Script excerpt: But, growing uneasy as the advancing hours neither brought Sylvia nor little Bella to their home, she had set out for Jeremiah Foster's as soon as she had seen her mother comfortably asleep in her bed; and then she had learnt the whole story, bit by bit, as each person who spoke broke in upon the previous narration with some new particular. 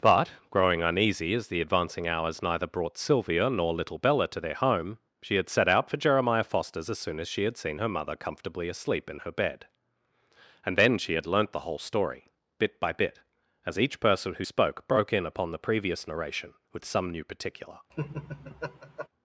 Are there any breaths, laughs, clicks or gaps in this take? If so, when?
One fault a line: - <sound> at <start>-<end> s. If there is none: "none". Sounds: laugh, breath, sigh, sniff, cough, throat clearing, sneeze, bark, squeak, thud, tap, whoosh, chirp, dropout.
- laugh at 17.9-19.1 s